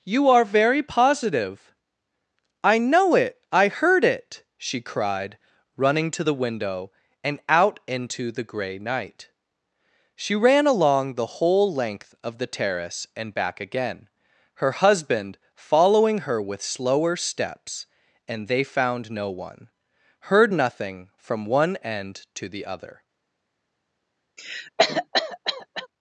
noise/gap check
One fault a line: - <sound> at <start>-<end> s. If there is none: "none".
- cough at 24.4-25.9 s